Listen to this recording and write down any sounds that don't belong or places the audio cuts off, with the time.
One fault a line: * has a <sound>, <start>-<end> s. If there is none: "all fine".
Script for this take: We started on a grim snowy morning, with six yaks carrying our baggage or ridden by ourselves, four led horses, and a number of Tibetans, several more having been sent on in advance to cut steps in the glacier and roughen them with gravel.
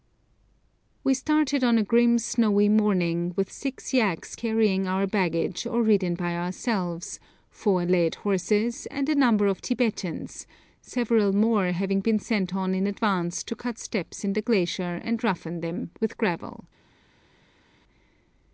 all fine